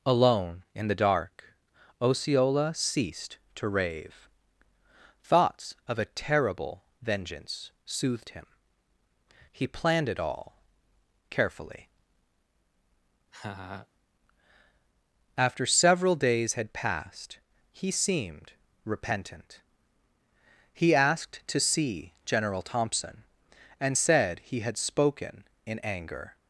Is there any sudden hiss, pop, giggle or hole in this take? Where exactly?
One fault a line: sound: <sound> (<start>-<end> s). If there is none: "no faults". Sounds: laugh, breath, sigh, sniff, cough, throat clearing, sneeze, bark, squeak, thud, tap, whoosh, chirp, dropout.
sound: laugh (13.3-13.9 s)